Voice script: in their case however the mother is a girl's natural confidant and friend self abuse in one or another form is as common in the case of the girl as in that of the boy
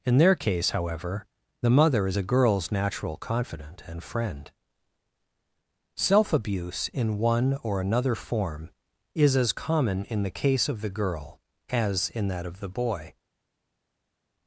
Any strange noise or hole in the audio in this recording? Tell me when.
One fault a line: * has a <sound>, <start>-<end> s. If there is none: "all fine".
all fine